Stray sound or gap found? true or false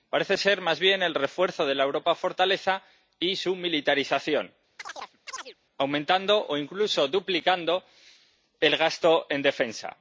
true